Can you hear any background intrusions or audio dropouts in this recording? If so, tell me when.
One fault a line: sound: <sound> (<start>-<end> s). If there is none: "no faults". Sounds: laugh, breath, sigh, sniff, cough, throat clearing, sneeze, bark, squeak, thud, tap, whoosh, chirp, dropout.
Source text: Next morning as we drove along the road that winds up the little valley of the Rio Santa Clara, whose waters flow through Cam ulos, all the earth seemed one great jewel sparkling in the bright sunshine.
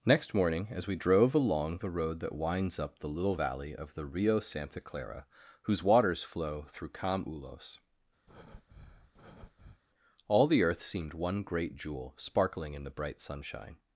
sound: breath (8.3-9.8 s)